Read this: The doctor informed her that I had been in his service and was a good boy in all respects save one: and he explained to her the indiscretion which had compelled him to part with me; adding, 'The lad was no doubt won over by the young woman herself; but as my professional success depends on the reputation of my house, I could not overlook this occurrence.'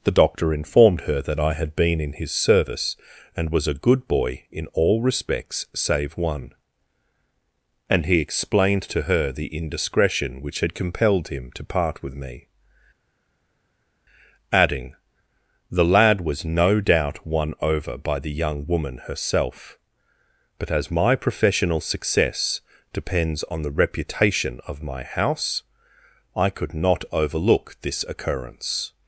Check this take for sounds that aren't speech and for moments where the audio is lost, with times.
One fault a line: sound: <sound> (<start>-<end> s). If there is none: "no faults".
no faults